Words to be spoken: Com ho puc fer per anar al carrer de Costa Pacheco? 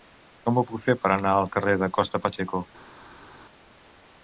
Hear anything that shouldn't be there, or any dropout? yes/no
no